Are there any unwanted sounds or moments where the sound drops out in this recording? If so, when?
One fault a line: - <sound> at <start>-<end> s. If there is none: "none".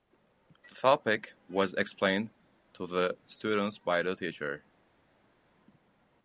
none